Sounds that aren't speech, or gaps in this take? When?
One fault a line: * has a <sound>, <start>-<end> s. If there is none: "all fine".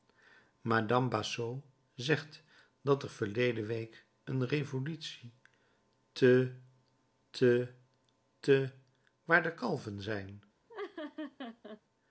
* has a laugh, 10.7-11.8 s